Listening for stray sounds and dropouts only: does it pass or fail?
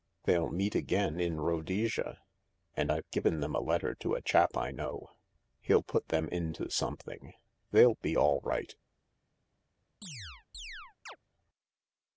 fail